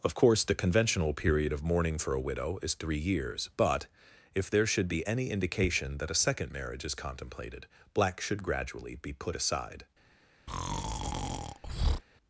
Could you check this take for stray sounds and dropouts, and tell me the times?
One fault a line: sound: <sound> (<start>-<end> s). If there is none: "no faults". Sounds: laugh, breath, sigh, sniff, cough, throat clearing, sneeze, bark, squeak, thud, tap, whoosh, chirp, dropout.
sound: breath (10.5-12.0 s)